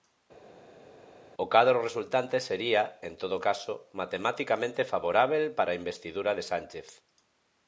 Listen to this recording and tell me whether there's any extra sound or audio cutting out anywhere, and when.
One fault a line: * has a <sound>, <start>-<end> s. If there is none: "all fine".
all fine